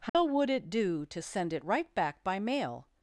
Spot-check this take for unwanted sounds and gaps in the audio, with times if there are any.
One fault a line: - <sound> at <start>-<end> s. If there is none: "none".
- dropout at 0.1-0.1 s